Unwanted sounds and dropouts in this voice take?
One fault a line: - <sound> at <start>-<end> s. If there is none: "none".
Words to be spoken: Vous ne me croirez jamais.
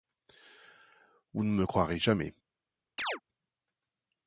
- chirp at 3.0-3.2 s